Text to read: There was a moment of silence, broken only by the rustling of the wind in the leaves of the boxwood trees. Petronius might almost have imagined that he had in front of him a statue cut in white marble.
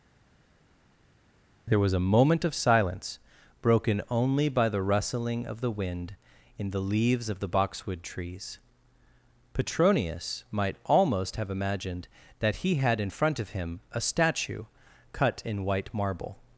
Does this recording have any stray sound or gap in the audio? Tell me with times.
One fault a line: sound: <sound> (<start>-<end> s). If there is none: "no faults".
no faults